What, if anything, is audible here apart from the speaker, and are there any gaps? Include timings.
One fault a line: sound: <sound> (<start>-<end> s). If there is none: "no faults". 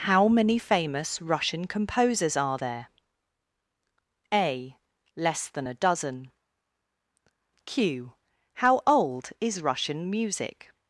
no faults